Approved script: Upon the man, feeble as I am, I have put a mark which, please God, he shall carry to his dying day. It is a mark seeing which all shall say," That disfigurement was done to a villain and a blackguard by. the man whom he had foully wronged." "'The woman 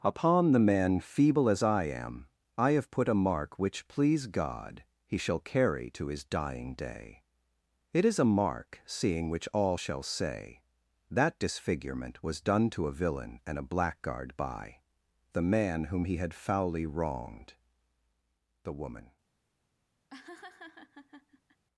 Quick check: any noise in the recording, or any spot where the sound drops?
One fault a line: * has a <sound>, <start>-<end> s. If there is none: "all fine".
* has a laugh, 20.1-21.6 s